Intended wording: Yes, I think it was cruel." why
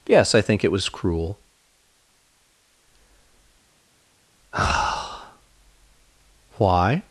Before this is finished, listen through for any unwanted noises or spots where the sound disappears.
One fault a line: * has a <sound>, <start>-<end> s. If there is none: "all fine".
all fine